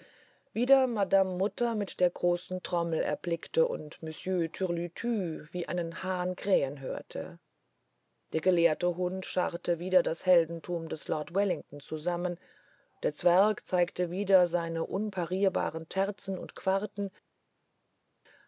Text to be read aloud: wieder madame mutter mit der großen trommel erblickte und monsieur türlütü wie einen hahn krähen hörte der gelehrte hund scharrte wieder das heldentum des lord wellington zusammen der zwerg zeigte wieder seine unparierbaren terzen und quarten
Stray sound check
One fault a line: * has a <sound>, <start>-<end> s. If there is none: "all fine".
all fine